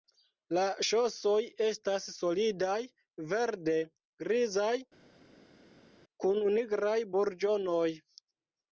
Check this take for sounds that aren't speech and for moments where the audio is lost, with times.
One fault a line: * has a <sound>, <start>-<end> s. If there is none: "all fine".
all fine